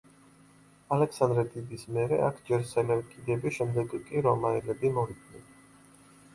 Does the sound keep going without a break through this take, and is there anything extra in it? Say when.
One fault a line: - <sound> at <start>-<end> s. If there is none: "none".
none